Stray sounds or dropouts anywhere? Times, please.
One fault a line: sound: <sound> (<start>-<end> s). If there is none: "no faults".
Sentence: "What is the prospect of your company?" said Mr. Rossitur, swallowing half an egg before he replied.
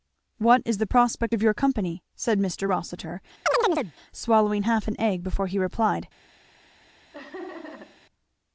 sound: chirp (3.5-3.9 s)
sound: laugh (7.1-8.0 s)